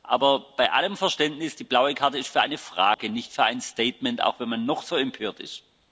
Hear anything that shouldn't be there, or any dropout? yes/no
yes